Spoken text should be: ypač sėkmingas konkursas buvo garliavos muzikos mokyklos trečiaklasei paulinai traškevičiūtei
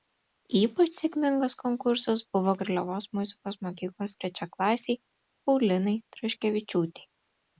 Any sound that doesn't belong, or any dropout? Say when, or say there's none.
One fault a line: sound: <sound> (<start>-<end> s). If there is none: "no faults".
no faults